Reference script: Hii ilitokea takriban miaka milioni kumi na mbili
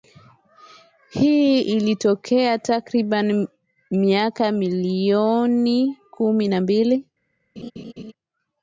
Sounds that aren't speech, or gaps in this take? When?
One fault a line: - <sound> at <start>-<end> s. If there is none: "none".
- laugh at 7.6-8.1 s